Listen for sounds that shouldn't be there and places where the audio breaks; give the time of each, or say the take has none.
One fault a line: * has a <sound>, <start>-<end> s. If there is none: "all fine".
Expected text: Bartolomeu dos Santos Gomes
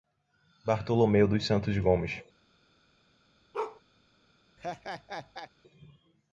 * has a bark, 3.5-3.8 s
* has a laugh, 4.6-5.5 s